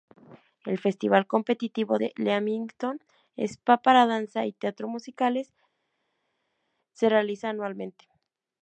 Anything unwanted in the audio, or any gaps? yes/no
no